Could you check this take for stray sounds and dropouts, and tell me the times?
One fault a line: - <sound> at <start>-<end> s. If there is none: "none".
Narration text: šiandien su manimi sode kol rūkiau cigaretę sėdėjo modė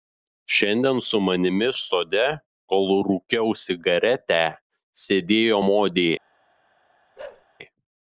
- bark at 7.2-7.5 s